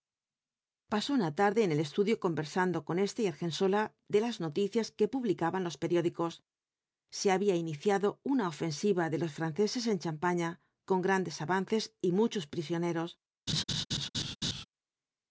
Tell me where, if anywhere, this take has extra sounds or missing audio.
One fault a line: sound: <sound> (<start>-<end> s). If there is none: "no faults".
sound: laugh (13.5-14.6 s)